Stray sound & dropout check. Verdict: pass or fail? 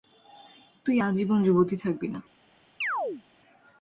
fail